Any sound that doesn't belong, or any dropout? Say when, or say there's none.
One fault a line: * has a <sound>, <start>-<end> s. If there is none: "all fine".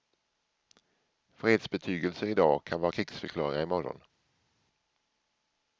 all fine